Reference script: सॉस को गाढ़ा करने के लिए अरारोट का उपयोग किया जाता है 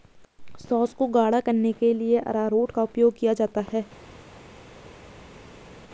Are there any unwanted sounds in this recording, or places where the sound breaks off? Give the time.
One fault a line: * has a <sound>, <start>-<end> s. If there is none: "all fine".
all fine